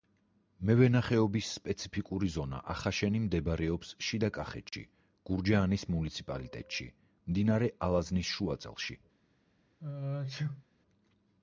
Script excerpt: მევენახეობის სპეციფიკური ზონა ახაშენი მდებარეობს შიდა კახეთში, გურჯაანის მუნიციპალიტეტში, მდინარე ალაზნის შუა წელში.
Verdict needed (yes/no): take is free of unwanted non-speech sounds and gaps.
no